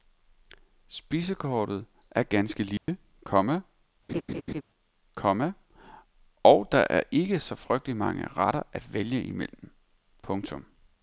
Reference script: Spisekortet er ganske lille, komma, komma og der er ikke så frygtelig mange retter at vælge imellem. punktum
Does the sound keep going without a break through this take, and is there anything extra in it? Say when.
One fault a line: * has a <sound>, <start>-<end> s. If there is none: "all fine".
* has a dropout, 2.8-2.9 s
* has a laugh, 4.1-4.6 s